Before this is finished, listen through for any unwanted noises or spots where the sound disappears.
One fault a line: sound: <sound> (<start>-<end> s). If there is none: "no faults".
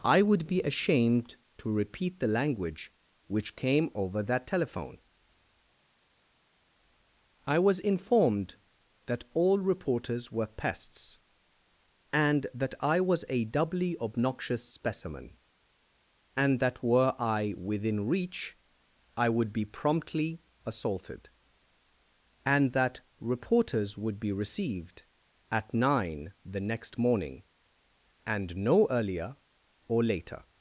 no faults